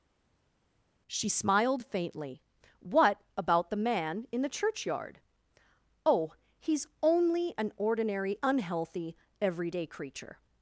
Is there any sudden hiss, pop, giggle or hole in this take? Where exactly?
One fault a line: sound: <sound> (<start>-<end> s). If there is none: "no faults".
no faults